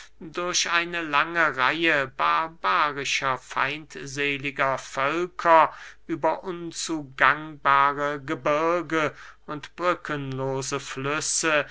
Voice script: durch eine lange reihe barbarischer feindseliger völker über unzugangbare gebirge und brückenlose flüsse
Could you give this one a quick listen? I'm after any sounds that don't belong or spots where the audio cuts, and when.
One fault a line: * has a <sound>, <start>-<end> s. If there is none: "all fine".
all fine